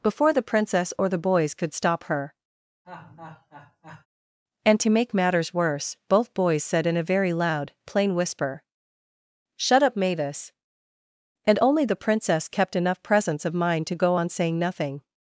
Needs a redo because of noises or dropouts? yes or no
yes